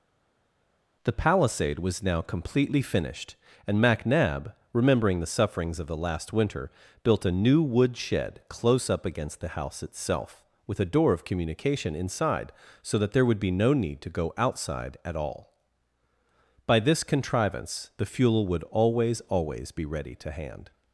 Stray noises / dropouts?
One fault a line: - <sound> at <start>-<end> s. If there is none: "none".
none